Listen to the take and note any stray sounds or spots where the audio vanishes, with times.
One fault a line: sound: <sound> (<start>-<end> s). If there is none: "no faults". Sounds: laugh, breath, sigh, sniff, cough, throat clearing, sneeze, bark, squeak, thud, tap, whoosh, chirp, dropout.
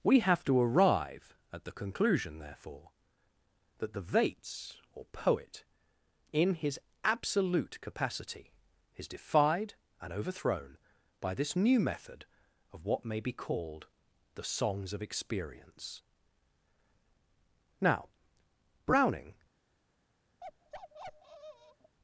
sound: bark (20.4-22.0 s)